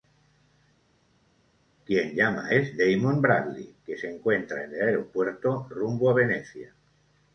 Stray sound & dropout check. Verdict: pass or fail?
pass